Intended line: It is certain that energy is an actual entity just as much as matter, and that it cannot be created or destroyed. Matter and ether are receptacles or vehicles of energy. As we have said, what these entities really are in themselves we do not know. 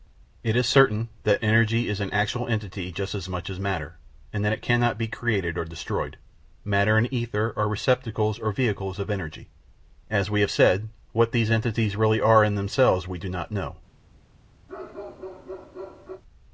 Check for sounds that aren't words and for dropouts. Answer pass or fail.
fail